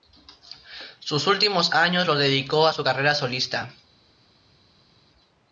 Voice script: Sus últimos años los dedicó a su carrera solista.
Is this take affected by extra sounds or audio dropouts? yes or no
no